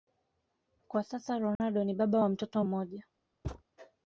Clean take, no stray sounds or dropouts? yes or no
no